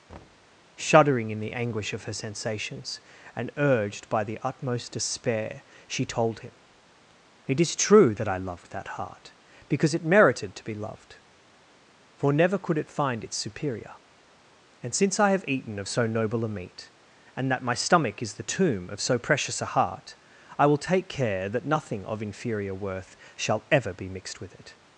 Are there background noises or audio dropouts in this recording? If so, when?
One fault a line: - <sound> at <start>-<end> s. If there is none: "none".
- thud at 0.1-0.6 s